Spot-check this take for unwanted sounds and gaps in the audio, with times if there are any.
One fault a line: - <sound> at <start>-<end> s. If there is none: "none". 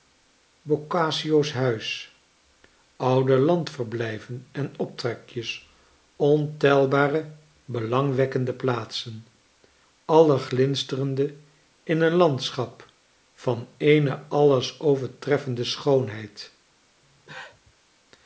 - cough at 17.0-17.7 s